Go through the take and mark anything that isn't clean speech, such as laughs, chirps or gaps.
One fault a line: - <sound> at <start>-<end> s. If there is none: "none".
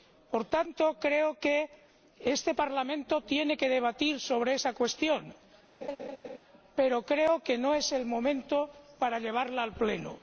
- laugh at 5.8-6.4 s